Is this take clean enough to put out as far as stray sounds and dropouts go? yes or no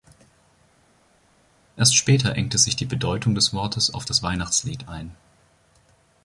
yes